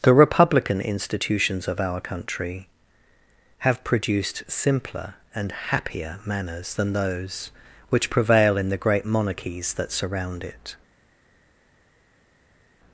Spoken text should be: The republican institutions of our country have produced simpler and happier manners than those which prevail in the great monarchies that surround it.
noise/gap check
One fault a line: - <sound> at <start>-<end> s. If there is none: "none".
none